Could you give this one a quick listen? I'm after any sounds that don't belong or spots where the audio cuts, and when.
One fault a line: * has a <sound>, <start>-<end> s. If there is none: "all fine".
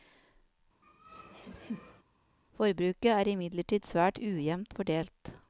* has a laugh, 0.8-2.0 s